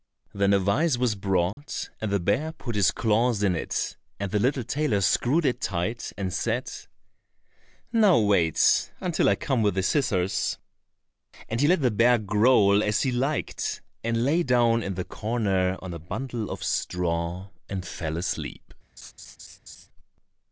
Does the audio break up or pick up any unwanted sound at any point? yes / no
yes